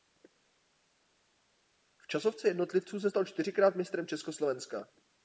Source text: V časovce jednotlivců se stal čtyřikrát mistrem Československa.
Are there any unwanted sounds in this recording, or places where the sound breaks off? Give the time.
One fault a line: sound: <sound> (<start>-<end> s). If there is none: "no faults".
no faults